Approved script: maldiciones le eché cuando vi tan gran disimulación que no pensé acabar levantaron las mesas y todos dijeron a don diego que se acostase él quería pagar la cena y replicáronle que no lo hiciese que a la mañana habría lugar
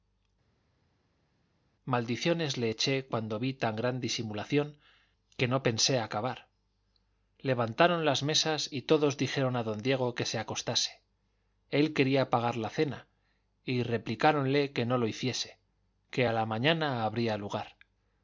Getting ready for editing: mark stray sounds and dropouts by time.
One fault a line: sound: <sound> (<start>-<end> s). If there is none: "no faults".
no faults